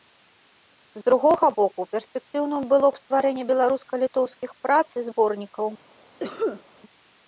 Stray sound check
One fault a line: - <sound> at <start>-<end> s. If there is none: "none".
- cough at 6.2-6.6 s